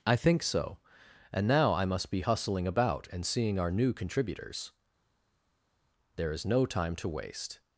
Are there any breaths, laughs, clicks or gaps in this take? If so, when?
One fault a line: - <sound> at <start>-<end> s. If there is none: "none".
none